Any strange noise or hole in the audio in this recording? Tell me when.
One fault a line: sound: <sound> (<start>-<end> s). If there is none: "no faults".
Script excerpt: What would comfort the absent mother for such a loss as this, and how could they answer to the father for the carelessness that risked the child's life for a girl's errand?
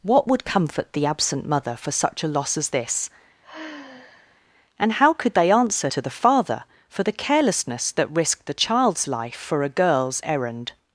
sound: sigh (3.4-4.4 s)